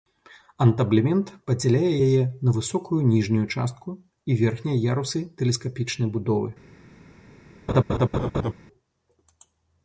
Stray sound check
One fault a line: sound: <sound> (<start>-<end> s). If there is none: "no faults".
sound: laugh (7.7-8.5 s)